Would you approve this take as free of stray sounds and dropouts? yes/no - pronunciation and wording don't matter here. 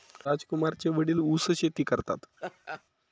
no